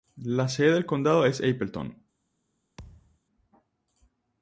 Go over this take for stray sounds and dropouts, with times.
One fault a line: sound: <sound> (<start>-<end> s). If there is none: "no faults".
sound: thud (2.8-3.2 s)